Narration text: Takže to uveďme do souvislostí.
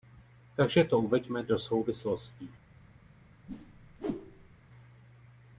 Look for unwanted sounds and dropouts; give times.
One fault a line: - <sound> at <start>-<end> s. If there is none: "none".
- whoosh at 3.5-4.6 s